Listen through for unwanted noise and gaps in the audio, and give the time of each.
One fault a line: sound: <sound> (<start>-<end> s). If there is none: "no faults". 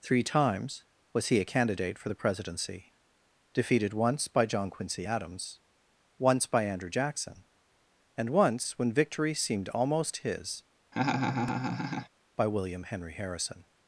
sound: laugh (10.9-12.1 s)